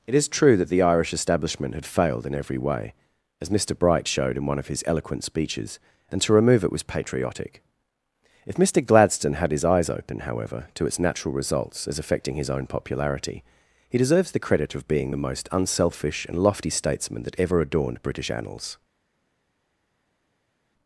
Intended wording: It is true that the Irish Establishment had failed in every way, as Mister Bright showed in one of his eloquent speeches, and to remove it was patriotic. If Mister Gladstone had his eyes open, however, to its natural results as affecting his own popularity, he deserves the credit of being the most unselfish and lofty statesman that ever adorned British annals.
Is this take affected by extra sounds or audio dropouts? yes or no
no